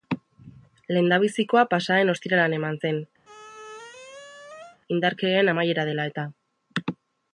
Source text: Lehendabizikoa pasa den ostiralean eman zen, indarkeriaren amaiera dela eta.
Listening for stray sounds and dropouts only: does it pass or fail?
fail